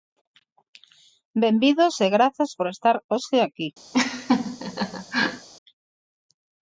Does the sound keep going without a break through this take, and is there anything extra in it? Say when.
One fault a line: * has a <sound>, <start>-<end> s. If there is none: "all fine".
* has a laugh, 3.9-5.5 s